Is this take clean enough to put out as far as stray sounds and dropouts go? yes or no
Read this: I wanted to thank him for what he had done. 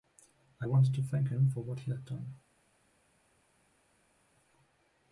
yes